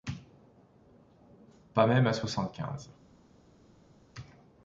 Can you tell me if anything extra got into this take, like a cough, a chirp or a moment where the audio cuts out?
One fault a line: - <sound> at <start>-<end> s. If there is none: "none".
none